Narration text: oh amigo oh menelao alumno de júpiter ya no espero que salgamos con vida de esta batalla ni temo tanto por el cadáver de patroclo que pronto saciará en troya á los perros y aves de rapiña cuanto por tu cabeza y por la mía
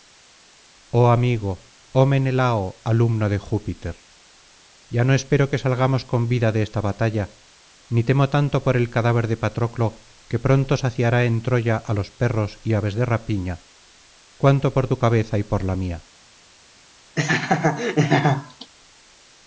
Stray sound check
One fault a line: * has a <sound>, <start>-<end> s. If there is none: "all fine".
* has a laugh, 17.2-18.7 s